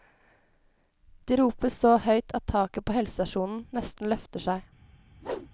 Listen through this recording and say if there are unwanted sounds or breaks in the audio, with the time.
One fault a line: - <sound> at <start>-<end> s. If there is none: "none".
- whoosh at 5.2-5.5 s